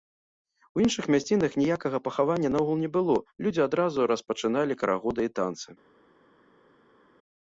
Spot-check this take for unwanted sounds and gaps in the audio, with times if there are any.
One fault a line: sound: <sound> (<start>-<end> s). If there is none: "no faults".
no faults